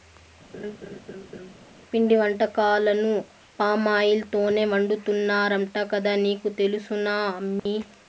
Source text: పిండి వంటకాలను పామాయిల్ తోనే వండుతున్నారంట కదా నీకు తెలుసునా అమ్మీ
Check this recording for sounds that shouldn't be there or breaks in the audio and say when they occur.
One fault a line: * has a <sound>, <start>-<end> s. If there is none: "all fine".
* has a laugh, 0.5-1.5 s
* has a dropout, 7.6-7.7 s